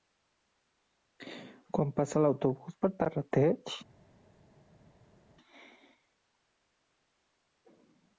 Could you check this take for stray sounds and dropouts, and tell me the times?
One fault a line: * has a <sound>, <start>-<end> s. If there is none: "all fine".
all fine